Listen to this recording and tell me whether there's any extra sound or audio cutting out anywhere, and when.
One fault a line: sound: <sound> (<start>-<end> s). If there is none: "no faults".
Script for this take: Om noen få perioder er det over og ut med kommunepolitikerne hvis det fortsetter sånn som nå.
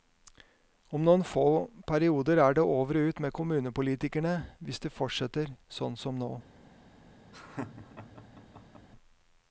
sound: laugh (7.3-8.9 s)